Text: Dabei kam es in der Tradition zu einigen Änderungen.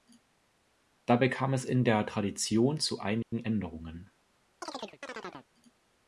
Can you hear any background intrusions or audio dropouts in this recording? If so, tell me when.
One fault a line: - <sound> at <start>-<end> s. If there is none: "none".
- dropout at 3.2-3.3 s
- chirp at 4.6-5.5 s